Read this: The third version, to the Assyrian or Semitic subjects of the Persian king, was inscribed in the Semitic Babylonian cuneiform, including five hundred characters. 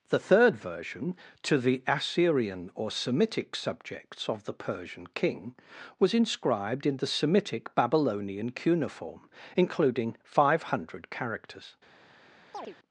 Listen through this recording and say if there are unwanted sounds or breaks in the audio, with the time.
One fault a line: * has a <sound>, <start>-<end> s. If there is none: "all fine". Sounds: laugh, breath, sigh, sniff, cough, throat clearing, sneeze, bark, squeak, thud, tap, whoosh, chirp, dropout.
* has a chirp, 12.5-12.8 s